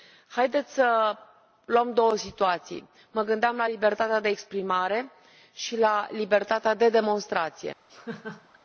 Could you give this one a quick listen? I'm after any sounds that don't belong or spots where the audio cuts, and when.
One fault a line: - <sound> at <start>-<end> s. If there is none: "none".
- laugh at 7.9-8.6 s